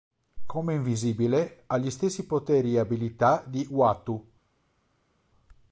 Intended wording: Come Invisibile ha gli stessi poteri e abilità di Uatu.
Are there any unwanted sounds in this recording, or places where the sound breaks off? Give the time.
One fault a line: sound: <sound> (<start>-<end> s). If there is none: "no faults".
no faults